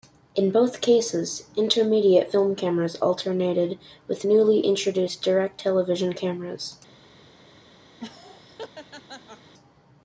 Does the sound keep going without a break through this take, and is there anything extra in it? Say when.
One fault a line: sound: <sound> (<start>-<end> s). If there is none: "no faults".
sound: laugh (8.0-9.5 s)